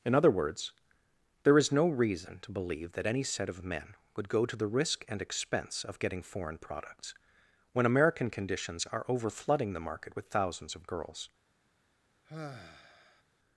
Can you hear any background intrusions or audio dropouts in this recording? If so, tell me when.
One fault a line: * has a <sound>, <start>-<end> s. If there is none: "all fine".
* has a sigh, 12.2-13.2 s